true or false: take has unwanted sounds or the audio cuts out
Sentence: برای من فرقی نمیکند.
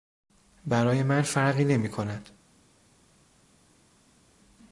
false